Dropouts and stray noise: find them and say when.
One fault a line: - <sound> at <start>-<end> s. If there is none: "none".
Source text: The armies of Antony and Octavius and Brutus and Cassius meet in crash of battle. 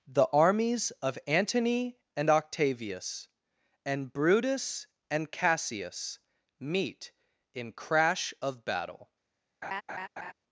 - laugh at 9.6-10.3 s